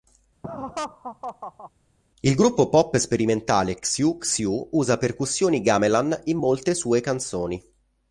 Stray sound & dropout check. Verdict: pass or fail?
fail